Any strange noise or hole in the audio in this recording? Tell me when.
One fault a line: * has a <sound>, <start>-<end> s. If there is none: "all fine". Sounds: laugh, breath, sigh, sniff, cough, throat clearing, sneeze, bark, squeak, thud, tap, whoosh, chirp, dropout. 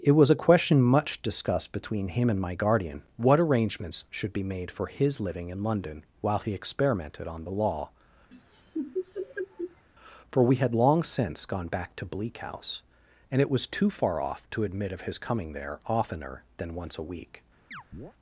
* has a laugh, 8.3-9.8 s
* has a chirp, 17.7-18.1 s